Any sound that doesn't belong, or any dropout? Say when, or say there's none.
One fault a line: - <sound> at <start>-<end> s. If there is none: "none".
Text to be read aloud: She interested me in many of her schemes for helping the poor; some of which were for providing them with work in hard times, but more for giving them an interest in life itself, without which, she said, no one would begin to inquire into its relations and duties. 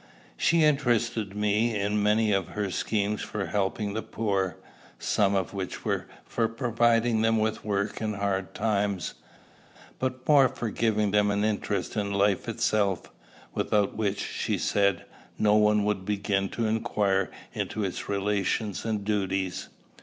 none